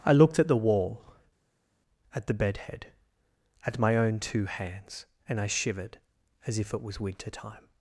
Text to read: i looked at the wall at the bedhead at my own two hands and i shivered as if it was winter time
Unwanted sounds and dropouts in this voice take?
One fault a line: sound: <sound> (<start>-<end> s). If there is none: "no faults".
no faults